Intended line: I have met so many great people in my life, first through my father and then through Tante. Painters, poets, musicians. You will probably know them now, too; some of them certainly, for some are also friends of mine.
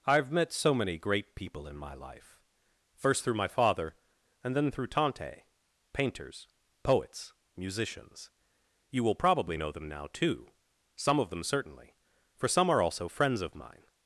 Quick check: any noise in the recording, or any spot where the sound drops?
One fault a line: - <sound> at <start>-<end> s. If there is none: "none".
none